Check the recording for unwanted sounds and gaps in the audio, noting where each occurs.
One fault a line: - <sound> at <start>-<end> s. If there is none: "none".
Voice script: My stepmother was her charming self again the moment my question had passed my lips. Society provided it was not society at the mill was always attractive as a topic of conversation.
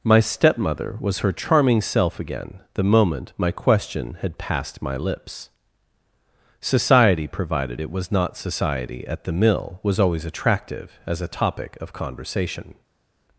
none